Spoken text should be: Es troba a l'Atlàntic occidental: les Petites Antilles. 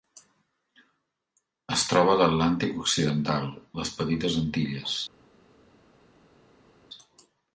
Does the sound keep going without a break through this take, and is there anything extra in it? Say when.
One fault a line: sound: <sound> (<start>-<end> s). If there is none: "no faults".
no faults